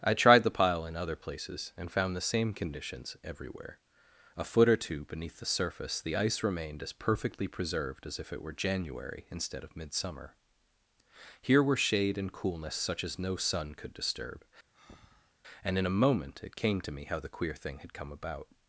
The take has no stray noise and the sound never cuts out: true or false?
false